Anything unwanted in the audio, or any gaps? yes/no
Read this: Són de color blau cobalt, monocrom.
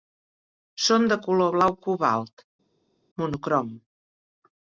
no